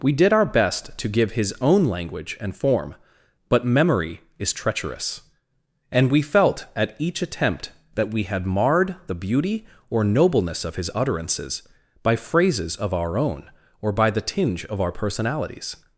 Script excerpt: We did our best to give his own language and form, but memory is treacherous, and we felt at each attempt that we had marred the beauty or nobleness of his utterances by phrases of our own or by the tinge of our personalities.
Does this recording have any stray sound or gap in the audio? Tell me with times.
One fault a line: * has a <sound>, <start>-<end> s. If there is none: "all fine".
all fine